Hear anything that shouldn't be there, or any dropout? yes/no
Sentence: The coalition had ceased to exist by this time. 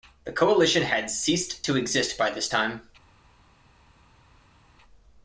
no